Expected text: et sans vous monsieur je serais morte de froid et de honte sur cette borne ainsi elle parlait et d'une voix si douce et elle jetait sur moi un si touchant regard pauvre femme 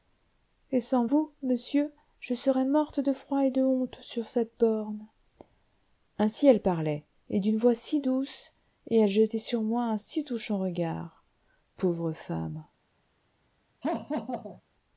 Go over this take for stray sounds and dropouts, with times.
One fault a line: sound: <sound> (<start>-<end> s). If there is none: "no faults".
sound: laugh (13.8-14.6 s)